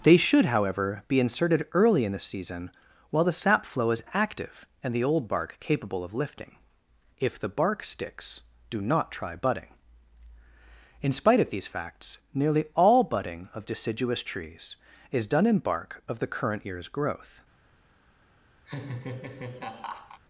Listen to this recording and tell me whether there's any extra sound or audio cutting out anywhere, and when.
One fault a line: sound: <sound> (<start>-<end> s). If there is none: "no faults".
sound: laugh (18.7-20.2 s)